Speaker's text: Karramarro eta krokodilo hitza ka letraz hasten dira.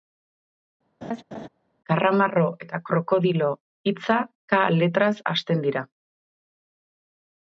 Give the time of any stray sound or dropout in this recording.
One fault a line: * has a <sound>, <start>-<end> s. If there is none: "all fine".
* has a laugh, 1.0-1.5 s